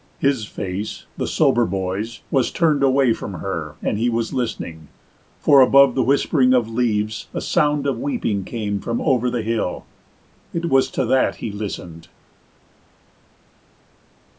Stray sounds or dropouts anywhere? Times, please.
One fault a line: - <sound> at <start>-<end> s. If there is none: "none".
none